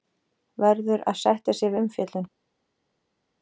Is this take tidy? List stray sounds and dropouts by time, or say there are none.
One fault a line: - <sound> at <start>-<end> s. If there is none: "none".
none